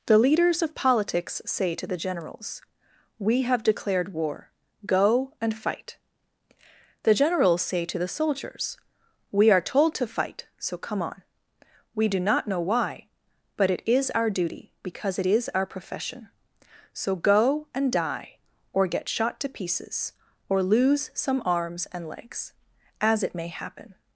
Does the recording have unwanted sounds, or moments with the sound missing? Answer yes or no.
no